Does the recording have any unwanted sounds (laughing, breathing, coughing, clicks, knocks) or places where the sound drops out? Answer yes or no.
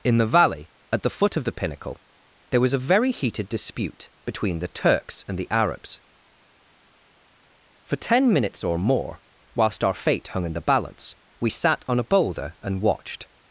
no